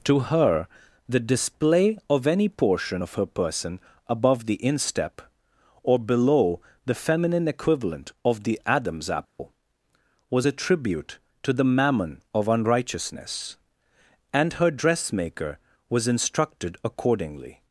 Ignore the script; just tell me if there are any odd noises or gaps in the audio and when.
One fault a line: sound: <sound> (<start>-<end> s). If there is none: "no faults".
sound: dropout (9.2-9.4 s)